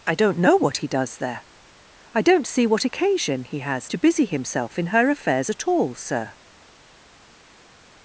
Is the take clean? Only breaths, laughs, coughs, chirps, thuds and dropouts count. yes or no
yes